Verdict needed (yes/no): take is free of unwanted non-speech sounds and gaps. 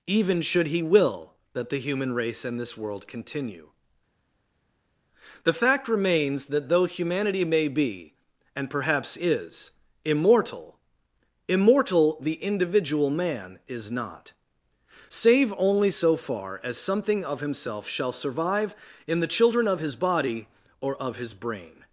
yes